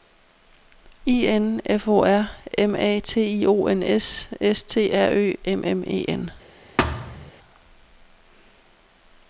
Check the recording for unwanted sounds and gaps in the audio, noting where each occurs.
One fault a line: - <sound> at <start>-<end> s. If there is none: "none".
- thud at 6.8-7.3 s